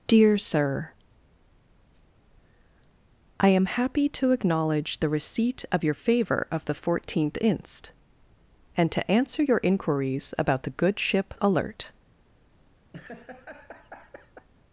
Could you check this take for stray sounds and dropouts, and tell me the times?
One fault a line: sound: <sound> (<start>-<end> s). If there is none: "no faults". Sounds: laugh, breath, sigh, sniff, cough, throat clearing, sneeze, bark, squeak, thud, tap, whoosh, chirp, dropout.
sound: laugh (12.9-14.5 s)